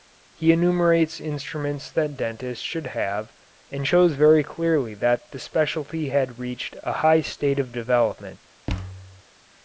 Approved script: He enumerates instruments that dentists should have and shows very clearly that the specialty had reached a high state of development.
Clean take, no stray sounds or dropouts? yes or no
no